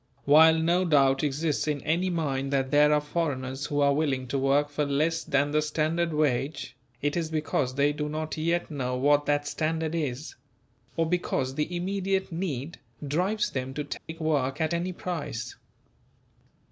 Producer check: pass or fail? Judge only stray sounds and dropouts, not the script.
fail